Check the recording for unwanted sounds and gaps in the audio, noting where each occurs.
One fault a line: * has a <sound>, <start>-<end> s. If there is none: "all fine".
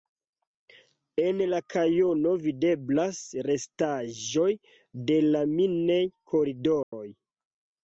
* has a dropout, 6.8-6.9 s